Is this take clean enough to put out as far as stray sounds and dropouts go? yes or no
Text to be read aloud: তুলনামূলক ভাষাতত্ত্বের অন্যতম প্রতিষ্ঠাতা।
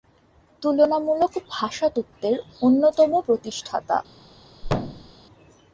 no